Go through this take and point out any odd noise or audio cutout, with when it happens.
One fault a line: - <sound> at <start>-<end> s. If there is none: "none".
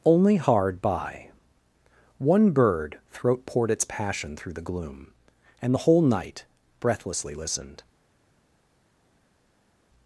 none